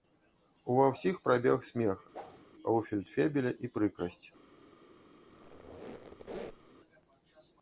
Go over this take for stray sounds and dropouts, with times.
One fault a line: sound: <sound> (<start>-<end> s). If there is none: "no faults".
sound: whoosh (2.1-2.5 s)
sound: squeak (5.3-6.7 s)